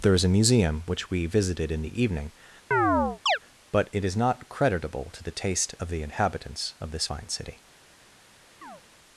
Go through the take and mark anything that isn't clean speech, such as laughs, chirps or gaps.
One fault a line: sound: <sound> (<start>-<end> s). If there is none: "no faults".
sound: chirp (2.7-3.4 s)
sound: chirp (8.6-8.8 s)